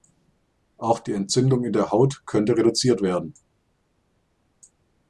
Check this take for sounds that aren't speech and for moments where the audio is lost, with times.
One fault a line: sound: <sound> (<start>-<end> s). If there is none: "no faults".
no faults